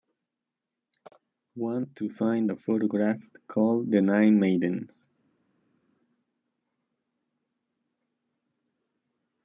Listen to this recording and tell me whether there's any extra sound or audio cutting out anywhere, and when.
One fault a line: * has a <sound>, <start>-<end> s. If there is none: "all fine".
all fine